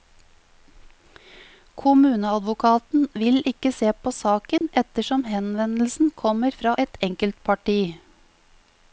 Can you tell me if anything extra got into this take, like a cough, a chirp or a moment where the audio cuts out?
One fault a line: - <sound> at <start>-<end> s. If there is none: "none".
- dropout at 4.6-4.6 s